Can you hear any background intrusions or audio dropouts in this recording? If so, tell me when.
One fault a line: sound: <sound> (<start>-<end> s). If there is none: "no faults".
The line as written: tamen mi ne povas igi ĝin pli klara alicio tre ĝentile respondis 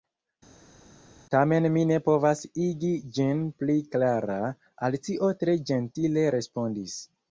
no faults